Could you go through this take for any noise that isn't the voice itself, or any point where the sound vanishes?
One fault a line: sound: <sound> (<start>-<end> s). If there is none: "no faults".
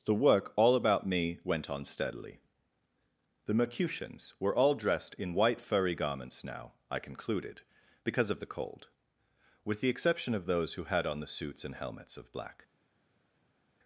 no faults